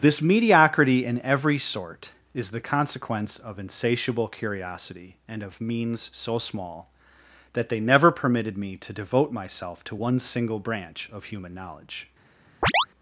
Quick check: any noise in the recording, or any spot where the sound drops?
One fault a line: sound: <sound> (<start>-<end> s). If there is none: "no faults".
sound: chirp (12.6-12.9 s)